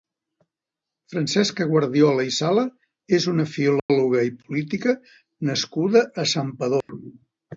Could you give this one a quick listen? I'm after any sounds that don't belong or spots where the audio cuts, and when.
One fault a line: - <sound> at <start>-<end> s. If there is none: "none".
- dropout at 3.8-3.9 s
- dropout at 6.8-6.9 s